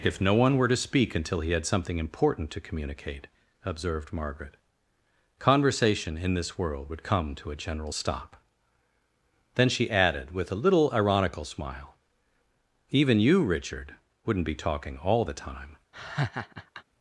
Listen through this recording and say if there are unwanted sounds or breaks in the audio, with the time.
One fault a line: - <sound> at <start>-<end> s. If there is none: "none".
- laugh at 15.9-16.8 s